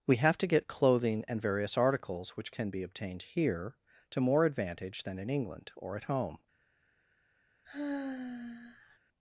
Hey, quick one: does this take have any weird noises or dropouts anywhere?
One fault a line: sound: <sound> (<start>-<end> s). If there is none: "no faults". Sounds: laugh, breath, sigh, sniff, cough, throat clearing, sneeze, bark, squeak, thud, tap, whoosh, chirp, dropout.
sound: sigh (7.6-9.0 s)